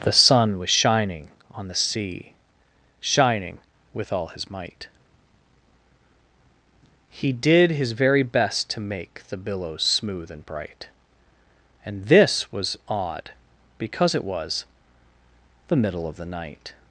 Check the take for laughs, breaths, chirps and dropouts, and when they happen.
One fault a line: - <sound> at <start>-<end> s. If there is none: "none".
none